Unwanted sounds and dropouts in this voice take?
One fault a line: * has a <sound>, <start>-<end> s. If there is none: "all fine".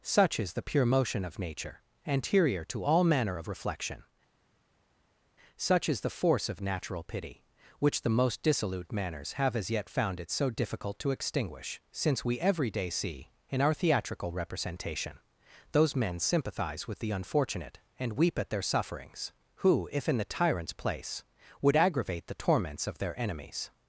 all fine